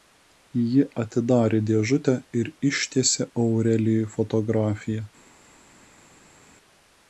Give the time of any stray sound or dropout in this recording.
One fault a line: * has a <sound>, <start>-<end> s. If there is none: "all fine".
all fine